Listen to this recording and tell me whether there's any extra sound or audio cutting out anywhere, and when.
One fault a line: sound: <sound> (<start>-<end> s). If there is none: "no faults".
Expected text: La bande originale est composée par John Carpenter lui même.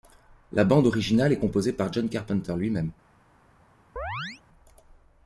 sound: chirp (4.0-4.4 s)